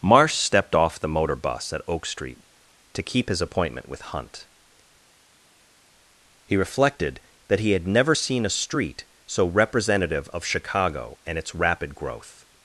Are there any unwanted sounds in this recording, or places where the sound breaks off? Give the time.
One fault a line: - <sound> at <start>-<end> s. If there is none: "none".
none